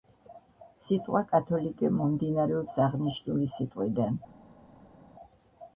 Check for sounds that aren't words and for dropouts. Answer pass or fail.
pass